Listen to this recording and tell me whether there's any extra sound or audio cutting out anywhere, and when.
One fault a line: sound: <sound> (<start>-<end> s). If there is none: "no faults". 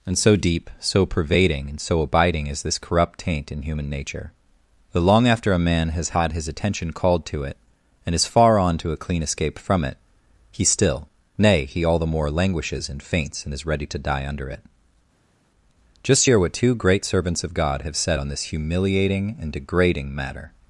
no faults